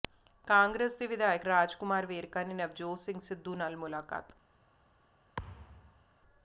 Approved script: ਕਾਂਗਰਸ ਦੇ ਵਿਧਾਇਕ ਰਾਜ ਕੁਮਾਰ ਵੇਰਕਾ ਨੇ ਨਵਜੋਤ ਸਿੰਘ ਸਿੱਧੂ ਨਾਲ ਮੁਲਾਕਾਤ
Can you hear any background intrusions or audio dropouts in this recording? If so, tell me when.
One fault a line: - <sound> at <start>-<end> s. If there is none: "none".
- thud at 5.4-6.0 s